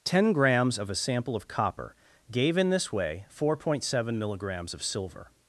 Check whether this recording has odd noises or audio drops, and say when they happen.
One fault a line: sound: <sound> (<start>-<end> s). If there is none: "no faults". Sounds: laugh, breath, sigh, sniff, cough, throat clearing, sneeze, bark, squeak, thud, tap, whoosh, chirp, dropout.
no faults